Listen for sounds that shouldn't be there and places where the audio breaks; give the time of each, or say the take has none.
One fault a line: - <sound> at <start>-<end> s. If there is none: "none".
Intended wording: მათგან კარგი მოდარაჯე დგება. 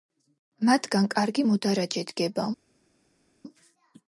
none